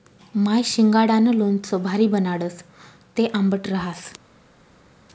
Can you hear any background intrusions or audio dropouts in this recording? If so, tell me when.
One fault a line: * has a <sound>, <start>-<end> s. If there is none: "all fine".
all fine